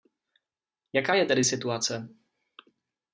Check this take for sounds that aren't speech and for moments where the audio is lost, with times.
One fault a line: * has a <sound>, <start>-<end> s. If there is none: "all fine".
all fine